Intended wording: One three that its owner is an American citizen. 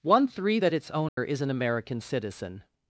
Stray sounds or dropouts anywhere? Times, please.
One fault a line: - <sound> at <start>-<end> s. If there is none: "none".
- dropout at 1.1-1.2 s